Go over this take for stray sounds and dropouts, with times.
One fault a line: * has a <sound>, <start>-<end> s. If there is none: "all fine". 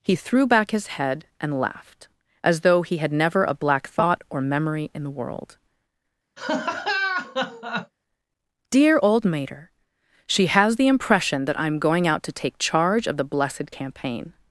* has a laugh, 6.4-7.9 s